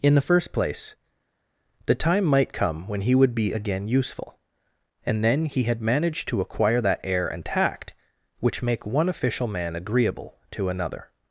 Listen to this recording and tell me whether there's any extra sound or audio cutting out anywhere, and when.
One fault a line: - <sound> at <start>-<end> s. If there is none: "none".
none